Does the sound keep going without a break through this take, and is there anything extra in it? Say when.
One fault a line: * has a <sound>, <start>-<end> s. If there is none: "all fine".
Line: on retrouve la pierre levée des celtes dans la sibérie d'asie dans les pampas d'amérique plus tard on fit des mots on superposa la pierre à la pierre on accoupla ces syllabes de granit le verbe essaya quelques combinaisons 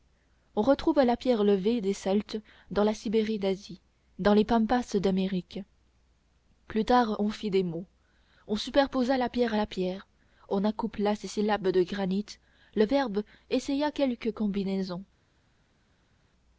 all fine